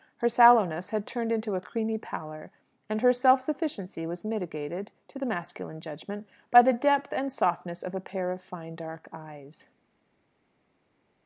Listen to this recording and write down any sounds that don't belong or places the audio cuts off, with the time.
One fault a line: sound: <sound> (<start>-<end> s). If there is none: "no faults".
no faults